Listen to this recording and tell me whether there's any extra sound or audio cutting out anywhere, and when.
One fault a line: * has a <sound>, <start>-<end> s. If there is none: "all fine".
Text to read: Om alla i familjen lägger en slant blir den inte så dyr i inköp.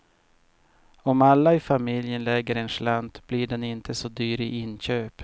all fine